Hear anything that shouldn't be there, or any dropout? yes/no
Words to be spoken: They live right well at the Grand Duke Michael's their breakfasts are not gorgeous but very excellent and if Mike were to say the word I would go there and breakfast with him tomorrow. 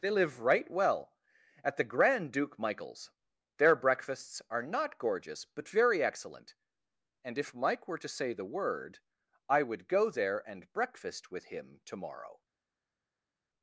no